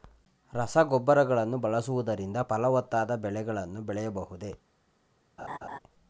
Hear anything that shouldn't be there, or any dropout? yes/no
yes